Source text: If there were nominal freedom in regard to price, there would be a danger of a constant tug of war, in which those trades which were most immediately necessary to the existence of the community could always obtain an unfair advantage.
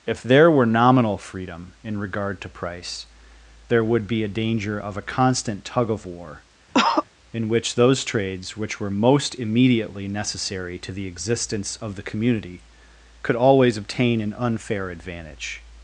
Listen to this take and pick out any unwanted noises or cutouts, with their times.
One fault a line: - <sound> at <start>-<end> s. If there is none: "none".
- cough at 6.7-7.0 s